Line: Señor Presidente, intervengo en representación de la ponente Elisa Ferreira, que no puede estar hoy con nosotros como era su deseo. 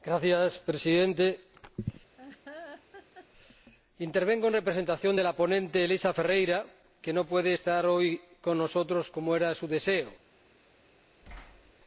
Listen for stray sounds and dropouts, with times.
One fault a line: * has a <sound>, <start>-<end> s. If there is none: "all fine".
* has a laugh, 2.2-3.3 s
* has a thud, 11.2-11.7 s